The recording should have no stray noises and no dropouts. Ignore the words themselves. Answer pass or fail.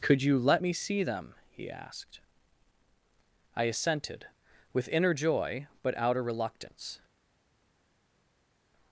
pass